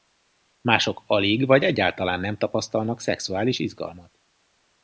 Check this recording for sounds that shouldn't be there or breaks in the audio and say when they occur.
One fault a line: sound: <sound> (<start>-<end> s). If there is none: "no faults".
no faults